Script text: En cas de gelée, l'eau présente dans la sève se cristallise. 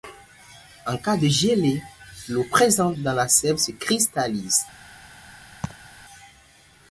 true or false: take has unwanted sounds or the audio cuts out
true